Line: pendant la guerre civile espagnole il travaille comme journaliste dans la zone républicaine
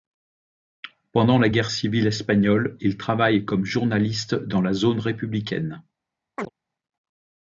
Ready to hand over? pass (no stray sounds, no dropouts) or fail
fail